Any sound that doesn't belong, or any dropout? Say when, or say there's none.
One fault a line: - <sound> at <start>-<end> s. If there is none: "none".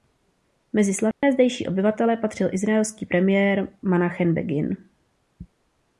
- dropout at 1.1-1.2 s